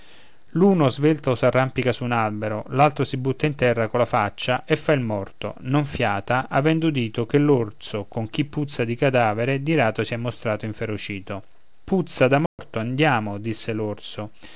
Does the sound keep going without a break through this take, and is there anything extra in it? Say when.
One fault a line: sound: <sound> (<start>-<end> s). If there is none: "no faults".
sound: dropout (12.5-12.6 s)